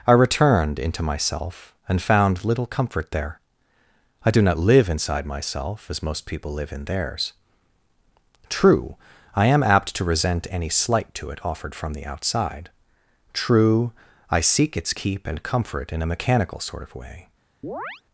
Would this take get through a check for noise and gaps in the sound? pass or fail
fail